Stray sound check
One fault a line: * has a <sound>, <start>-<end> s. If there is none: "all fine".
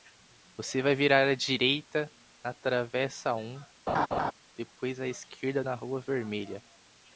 * has a laugh, 3.9-4.3 s